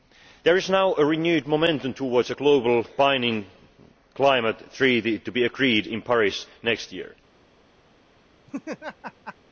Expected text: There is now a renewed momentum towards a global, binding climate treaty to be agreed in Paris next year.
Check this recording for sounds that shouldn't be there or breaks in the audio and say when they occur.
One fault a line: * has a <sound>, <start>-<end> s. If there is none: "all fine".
* has a laugh, 8.5-9.4 s